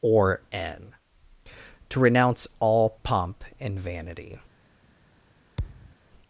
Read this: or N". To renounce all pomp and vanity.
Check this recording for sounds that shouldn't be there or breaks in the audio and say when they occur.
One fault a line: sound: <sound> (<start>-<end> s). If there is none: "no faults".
sound: thud (5.6-6.0 s)